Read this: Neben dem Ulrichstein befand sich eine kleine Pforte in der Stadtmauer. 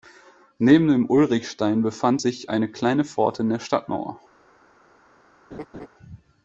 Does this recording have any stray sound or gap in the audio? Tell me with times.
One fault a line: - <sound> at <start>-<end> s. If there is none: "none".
- laugh at 5.5-5.9 s